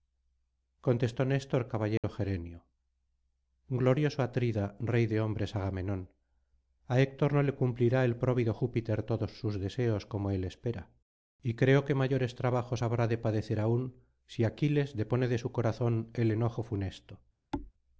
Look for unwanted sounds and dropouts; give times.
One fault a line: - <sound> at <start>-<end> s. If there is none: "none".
- dropout at 2.0-2.0 s
- thud at 17.5-17.7 s